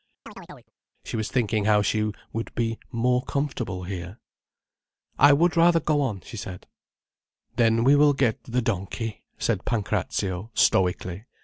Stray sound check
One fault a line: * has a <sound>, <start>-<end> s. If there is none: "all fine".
* has a chirp, 0.3-0.7 s